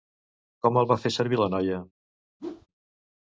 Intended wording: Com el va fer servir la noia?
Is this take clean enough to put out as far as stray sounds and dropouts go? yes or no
no